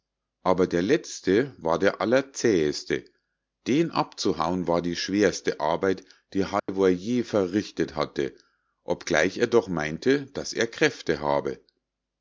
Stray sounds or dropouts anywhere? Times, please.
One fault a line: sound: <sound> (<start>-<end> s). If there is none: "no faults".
sound: dropout (6.6-6.7 s)